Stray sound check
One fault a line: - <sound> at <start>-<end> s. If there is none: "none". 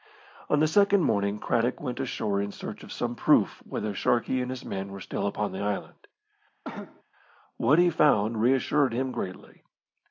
- cough at 6.6-7.0 s